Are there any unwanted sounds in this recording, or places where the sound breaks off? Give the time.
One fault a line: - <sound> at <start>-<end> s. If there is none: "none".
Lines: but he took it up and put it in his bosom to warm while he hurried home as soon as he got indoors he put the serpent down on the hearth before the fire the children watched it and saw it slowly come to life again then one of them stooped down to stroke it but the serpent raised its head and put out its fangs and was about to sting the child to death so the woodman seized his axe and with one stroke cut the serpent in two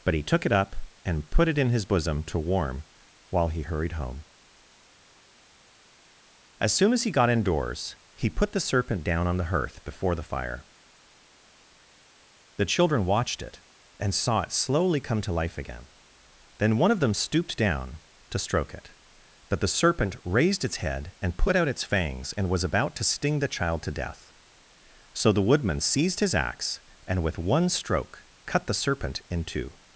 none